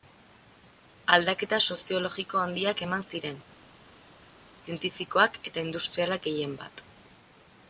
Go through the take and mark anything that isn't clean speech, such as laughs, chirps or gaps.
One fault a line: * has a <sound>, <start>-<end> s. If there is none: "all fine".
all fine